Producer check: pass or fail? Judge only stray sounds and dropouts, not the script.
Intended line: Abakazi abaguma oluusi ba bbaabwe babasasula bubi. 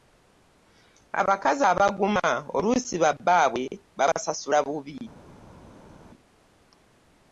pass